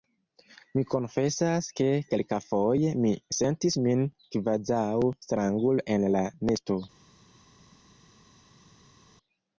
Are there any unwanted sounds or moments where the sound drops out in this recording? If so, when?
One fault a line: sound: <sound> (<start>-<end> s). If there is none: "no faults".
no faults